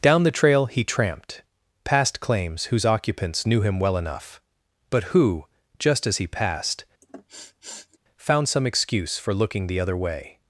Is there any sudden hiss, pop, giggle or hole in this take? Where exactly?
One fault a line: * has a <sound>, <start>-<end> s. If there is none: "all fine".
* has a sniff, 7.0-8.0 s